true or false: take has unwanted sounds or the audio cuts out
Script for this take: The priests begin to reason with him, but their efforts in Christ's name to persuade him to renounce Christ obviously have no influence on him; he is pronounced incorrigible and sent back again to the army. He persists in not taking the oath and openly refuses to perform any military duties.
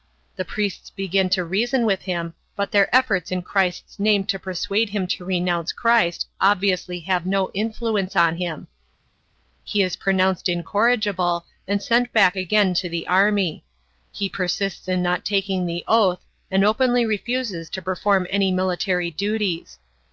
false